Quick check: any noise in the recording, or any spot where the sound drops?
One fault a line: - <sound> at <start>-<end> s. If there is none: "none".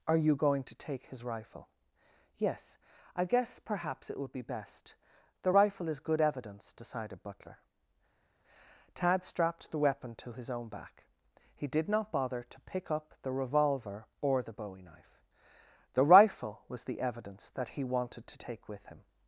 none